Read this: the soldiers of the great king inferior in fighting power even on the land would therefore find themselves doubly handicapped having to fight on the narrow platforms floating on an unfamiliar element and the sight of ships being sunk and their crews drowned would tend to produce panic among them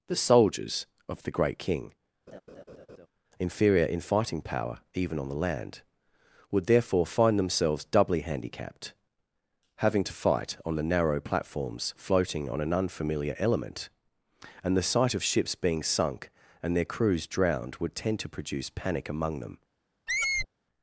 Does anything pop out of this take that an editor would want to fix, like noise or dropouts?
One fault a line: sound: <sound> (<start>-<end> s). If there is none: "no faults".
sound: laugh (2.3-3.1 s)
sound: squeak (20.1-20.5 s)